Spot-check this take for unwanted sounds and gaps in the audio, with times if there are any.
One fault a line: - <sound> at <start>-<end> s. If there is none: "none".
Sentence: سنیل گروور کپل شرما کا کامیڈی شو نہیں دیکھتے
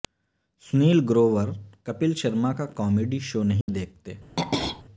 - dropout at 3.6-3.7 s
- throat clearing at 4.4-4.8 s